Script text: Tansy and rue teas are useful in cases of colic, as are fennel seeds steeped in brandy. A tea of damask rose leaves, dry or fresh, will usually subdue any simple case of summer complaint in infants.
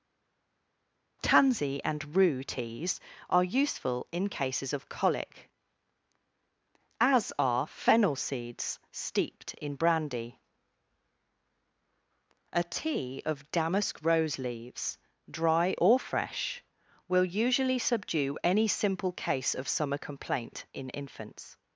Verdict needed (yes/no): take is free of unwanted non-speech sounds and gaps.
yes